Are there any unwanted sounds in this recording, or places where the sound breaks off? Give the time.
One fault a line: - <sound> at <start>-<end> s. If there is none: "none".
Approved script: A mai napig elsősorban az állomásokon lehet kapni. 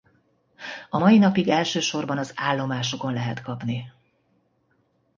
none